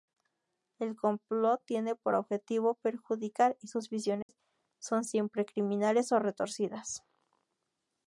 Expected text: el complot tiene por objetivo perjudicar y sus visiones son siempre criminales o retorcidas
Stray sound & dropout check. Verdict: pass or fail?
fail